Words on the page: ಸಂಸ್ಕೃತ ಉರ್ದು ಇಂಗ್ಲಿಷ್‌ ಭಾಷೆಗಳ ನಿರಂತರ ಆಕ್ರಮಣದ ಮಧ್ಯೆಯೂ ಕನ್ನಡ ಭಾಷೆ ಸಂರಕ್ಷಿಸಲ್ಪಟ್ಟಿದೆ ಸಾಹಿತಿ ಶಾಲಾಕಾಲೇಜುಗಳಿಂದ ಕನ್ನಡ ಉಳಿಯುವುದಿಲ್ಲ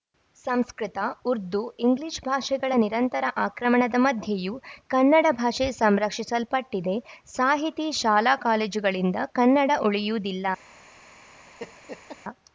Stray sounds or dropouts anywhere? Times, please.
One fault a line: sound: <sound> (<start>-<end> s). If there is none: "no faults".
sound: laugh (11.6-12.2 s)